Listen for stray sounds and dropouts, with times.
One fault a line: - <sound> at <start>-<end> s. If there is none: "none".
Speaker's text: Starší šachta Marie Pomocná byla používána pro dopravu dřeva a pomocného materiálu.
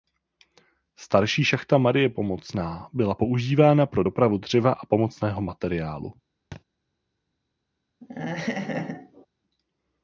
- thud at 6.5-6.6 s
- laugh at 8.0-9.3 s